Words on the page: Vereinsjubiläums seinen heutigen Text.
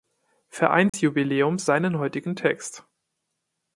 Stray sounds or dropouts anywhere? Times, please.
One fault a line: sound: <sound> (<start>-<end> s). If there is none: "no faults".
sound: dropout (0.9-0.9 s)